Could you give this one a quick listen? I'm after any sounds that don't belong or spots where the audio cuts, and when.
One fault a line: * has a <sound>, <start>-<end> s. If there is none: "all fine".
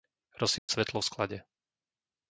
* has a dropout, 0.6-0.7 s